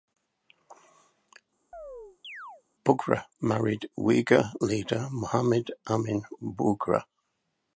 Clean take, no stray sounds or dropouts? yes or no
no